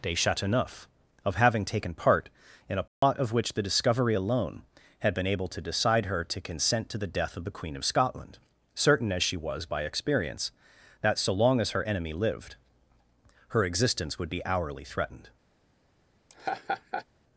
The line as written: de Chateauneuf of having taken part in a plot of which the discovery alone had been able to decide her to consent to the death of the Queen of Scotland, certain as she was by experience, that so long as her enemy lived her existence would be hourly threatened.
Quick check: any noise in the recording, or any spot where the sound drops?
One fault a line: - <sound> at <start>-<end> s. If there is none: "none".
- dropout at 2.9-3.0 s
- laugh at 16.3-17.1 s